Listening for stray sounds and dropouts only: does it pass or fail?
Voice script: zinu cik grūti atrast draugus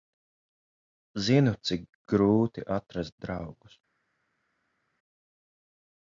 pass